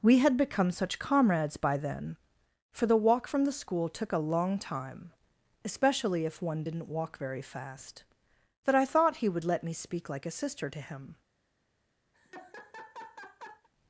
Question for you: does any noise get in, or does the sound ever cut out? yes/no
yes